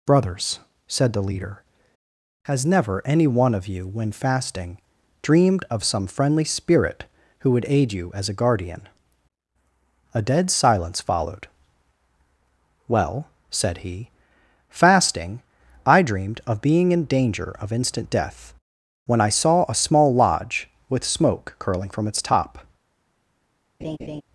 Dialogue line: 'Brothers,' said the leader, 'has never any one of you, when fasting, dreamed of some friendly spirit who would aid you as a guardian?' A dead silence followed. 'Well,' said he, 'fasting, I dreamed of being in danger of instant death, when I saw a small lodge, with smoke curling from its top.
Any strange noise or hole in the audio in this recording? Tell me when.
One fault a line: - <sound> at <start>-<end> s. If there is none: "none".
- laugh at 23.8-24.2 s